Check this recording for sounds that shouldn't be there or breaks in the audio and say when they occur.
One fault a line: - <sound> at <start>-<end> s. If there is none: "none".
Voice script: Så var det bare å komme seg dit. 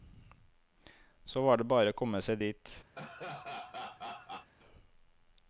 - laugh at 2.9-4.5 s